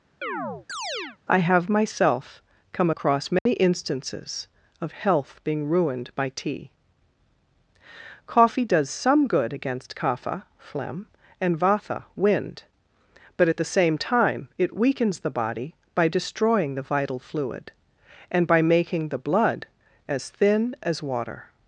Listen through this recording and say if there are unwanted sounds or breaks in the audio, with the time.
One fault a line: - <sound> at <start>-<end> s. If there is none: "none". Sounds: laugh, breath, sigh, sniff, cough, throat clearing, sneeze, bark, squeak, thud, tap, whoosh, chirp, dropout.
- chirp at 0.2-1.2 s
- dropout at 3.4-3.5 s